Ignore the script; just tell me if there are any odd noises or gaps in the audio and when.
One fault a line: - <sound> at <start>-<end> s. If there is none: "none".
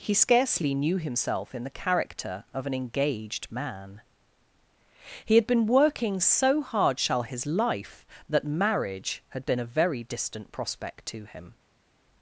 none